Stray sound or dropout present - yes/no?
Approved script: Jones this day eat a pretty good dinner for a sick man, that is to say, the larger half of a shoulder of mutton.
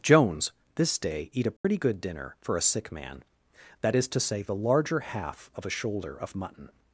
yes